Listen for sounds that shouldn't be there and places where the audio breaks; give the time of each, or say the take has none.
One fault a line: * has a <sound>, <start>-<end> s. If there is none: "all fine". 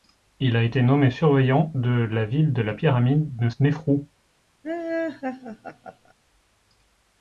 * has a laugh, 4.6-6.1 s